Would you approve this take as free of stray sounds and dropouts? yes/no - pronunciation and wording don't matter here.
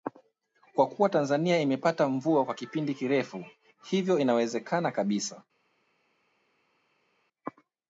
yes